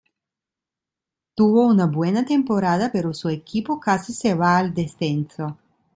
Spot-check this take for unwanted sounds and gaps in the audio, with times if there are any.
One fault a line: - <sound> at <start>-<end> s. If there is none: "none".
none